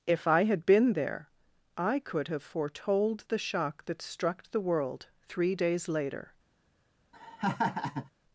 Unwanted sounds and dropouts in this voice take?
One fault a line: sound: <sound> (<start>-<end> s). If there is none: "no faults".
sound: laugh (7.1-8.1 s)